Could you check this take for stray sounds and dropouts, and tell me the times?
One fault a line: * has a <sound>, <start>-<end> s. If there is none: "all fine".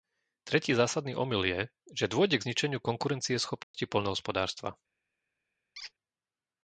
* has a dropout, 3.6-3.7 s
* has a squeak, 5.8-5.9 s